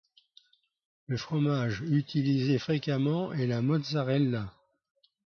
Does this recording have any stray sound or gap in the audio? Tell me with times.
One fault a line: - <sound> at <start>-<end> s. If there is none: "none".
none